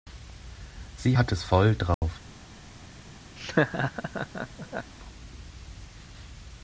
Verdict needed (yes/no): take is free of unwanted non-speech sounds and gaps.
no